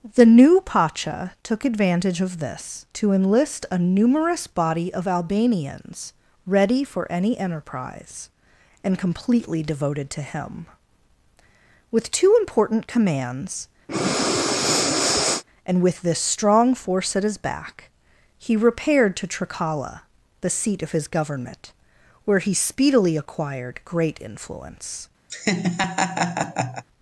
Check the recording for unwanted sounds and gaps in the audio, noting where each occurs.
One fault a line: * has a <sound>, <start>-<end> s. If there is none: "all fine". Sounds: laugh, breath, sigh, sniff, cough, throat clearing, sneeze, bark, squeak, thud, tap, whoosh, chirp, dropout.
* has a breath, 13.9-15.4 s
* has a laugh, 25.3-26.8 s